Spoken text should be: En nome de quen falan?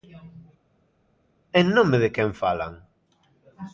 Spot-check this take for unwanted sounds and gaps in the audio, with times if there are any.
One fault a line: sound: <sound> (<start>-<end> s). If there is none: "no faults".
no faults